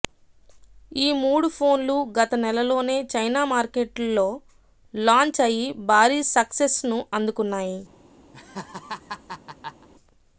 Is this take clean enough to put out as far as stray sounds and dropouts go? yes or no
no